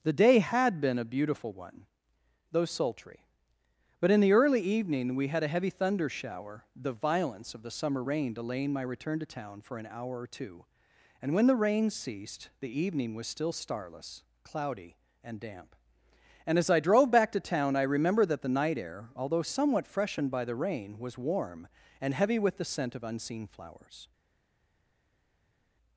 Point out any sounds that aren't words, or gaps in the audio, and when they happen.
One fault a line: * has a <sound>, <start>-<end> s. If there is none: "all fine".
all fine